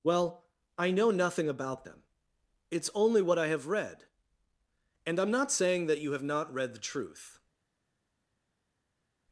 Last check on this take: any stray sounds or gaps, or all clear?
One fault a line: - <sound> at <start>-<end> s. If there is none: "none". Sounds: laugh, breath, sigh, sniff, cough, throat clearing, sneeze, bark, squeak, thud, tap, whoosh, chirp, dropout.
none